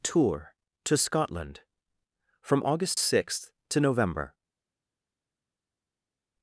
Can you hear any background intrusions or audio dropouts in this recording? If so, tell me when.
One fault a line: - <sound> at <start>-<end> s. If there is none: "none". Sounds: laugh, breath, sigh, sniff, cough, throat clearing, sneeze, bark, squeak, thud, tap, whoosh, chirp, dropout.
none